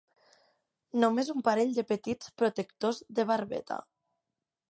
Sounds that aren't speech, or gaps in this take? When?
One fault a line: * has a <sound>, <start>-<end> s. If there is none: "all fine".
all fine